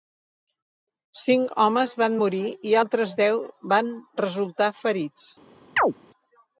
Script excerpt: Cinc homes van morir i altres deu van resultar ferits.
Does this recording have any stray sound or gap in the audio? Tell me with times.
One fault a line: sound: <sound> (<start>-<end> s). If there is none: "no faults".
sound: chirp (5.8-5.9 s)